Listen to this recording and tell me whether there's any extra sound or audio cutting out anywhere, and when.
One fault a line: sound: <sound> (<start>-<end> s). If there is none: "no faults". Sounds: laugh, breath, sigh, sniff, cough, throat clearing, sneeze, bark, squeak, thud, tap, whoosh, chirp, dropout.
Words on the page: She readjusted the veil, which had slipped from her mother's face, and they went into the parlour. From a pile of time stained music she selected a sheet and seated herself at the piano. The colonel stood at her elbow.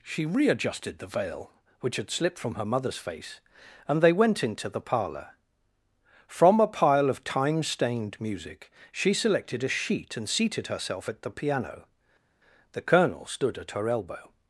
no faults